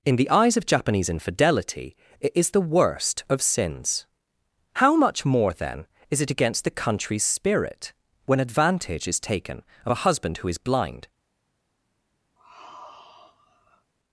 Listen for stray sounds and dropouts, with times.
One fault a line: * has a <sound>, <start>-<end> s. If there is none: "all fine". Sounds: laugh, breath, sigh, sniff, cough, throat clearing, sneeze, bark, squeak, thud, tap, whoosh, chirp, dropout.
* has a sigh, 12.4-13.9 s